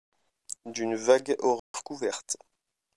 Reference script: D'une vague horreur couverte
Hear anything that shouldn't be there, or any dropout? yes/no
yes